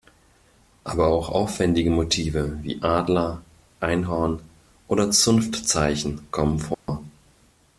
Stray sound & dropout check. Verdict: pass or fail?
fail